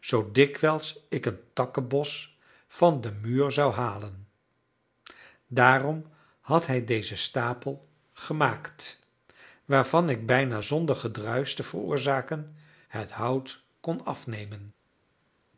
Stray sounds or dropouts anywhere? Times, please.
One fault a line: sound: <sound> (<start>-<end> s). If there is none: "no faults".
no faults